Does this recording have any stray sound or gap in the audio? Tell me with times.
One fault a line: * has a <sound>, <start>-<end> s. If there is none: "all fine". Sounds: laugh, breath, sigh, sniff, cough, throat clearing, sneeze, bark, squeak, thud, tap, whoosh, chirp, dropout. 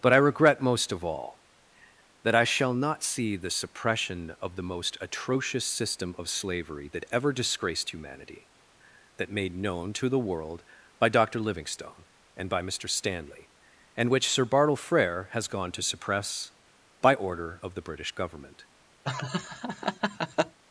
* has a laugh, 19.0-20.6 s